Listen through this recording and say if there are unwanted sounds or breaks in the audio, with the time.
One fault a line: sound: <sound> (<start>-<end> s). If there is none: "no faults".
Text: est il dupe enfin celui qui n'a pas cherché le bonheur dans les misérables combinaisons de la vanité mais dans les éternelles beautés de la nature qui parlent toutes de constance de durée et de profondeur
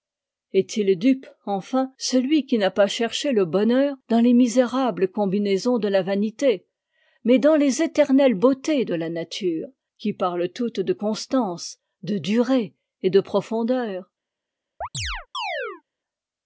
sound: chirp (14.8-15.8 s)